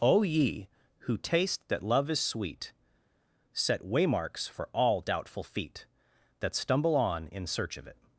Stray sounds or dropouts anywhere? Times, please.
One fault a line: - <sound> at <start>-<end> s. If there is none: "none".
none